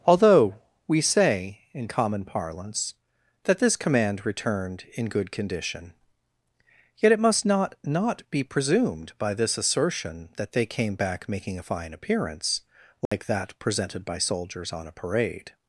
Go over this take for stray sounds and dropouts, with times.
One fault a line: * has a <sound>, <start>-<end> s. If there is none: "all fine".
* has a dropout, 13.1-13.1 s